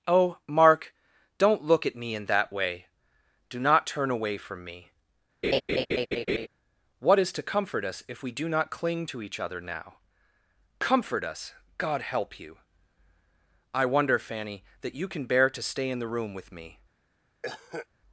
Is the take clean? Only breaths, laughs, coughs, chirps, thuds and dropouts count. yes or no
no